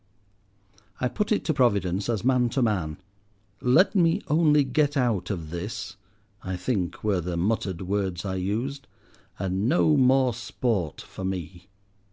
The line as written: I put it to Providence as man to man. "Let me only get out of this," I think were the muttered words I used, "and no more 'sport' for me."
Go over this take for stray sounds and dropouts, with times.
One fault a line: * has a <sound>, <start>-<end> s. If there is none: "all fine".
all fine